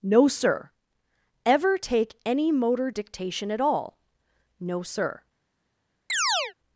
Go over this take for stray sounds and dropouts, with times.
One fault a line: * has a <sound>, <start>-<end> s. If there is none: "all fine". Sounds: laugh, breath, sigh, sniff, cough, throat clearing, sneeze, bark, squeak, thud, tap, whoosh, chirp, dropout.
* has a chirp, 6.1-6.5 s